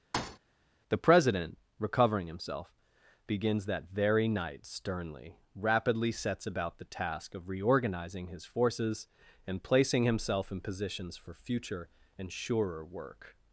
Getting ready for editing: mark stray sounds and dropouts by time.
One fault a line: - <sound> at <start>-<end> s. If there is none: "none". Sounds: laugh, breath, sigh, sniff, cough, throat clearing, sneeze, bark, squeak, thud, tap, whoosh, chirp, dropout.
- thud at 0.1-0.4 s